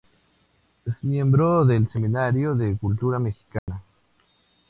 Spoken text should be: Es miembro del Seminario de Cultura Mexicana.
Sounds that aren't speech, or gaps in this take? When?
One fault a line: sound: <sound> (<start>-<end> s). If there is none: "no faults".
sound: dropout (3.6-3.7 s)